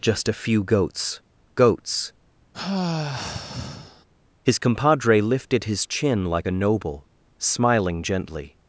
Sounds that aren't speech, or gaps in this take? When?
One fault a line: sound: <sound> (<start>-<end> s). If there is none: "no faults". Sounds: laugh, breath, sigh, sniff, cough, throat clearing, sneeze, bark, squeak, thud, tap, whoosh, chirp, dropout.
sound: sigh (2.5-4.1 s)